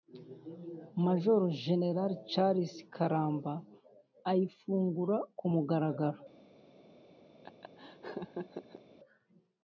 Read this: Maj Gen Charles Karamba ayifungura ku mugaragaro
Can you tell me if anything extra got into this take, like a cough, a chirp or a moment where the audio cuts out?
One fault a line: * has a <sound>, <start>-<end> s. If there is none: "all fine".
* has a laugh, 7.4-8.8 s